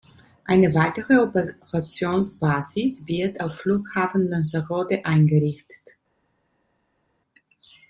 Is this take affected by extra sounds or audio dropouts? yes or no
no